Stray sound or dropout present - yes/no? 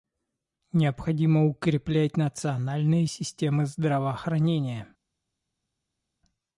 no